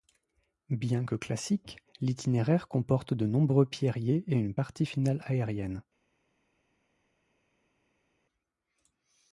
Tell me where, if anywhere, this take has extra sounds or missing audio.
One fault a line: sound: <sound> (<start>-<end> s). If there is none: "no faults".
no faults